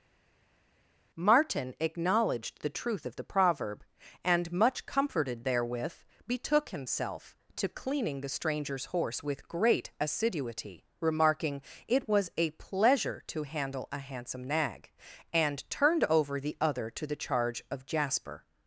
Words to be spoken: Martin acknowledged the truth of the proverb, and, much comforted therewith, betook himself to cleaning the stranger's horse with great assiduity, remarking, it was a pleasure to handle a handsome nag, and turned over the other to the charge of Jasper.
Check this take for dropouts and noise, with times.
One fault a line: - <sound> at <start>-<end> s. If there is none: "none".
none